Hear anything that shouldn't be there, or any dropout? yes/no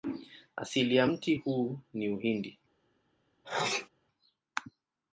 yes